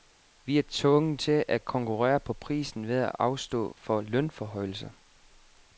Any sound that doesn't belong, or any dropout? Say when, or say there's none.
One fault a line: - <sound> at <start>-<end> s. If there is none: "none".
none